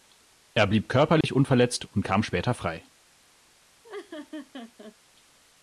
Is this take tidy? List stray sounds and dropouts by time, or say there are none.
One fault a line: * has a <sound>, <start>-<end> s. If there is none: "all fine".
* has a dropout, 1.2-1.2 s
* has a laugh, 3.8-5.0 s